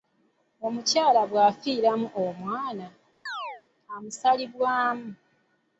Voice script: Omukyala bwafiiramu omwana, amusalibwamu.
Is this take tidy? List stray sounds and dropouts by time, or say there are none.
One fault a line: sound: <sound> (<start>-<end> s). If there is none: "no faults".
sound: chirp (3.3-3.6 s)